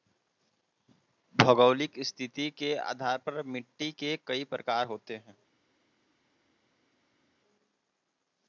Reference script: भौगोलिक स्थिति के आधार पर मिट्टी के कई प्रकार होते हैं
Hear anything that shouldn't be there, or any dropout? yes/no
no